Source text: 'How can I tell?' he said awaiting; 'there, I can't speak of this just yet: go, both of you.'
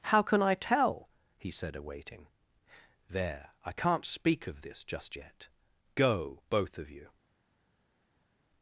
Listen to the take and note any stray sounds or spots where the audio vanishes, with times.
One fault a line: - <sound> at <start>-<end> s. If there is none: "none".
none